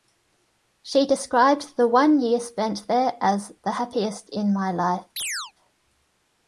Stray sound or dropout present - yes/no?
yes